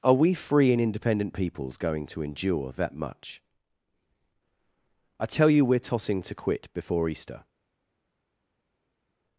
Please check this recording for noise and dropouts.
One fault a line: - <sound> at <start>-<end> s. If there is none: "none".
none